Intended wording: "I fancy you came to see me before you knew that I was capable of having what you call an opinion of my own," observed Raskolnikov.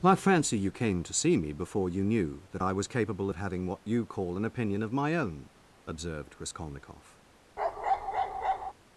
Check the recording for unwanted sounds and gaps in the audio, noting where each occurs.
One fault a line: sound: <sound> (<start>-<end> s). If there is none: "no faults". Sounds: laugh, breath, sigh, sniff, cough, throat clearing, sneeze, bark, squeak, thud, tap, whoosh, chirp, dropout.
sound: bark (7.6-8.7 s)